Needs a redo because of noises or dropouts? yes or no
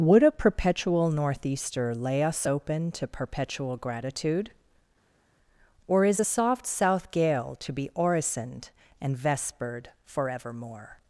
no